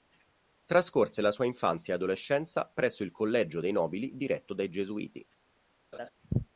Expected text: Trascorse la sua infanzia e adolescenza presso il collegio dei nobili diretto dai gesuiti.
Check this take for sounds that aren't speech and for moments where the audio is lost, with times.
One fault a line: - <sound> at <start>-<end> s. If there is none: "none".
- laugh at 5.9-6.1 s